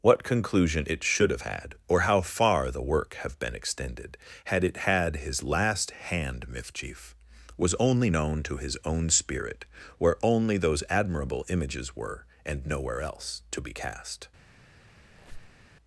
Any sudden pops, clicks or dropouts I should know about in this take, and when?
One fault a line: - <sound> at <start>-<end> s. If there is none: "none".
- squeak at 15.1-15.7 s